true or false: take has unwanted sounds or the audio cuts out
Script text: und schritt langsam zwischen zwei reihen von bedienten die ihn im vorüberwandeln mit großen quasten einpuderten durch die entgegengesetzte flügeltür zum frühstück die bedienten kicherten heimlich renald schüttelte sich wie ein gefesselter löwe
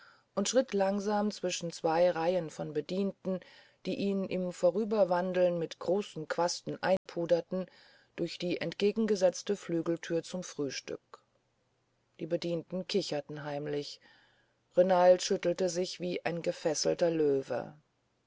true